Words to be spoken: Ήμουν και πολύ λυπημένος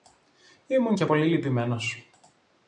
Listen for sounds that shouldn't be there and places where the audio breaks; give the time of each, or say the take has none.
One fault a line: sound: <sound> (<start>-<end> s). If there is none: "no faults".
no faults